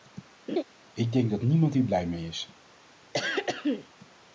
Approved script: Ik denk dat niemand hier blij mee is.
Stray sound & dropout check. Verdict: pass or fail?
fail